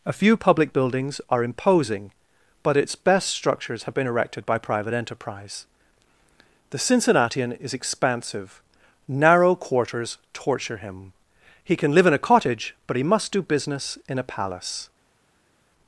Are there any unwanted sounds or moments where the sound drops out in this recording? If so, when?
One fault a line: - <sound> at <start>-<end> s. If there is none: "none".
none